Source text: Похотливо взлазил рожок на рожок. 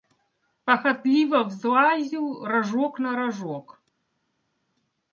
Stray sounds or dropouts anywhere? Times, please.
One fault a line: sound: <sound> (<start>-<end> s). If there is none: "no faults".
no faults